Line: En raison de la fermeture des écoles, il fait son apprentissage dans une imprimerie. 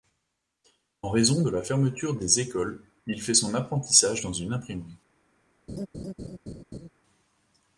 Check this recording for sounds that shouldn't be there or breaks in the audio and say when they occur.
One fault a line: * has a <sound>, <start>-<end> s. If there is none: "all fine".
* has a laugh, 5.7-6.9 s